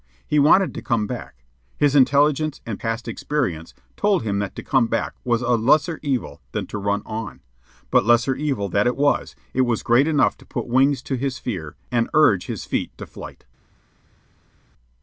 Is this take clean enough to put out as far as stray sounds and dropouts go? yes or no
yes